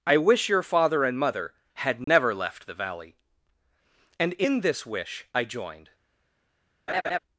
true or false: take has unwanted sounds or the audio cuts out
true